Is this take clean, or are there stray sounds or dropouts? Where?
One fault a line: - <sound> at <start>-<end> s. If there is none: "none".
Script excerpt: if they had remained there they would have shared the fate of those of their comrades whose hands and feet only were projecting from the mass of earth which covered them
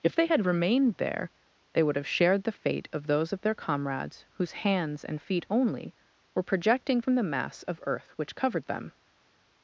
none